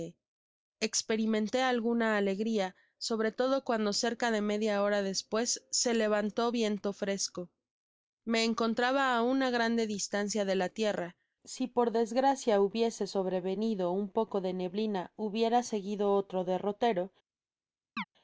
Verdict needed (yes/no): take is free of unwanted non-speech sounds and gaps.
no